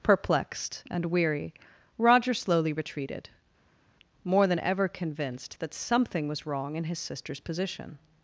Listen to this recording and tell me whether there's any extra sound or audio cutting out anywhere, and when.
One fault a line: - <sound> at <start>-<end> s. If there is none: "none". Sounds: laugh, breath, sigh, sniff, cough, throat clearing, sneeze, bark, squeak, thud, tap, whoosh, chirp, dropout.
none